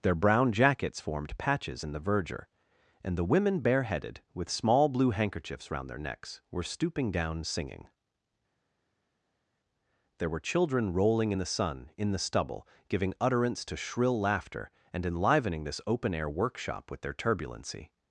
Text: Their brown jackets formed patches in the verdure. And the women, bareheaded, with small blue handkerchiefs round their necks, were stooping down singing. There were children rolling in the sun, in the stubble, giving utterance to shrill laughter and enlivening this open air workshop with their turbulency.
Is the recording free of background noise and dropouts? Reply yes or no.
yes